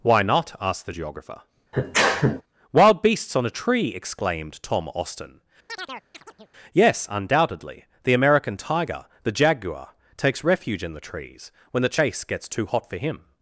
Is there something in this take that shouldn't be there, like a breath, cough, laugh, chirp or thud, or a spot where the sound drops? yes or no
yes